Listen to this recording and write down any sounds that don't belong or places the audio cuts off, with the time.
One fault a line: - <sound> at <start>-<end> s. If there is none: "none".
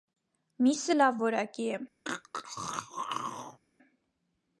- throat clearing at 2.0-3.6 s